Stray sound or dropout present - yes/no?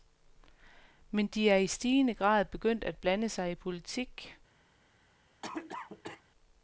yes